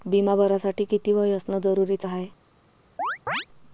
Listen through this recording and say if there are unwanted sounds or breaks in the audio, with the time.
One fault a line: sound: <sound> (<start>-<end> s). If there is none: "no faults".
sound: chirp (3.0-3.5 s)